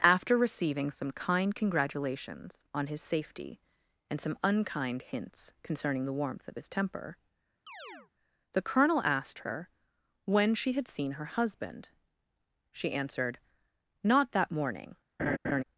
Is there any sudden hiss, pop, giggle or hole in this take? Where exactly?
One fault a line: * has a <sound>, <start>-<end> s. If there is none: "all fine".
* has a chirp, 7.7-8.1 s
* has a laugh, 15.2-15.6 s